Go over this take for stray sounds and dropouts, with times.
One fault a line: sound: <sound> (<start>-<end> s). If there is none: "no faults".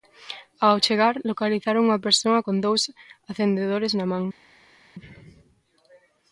no faults